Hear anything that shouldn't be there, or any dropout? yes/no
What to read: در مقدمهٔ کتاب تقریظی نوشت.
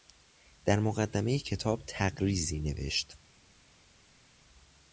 no